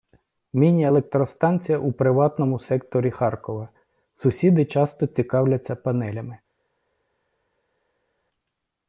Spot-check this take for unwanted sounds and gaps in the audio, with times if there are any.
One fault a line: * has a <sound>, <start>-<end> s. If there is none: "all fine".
all fine